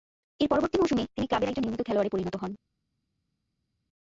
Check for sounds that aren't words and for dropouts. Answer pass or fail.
pass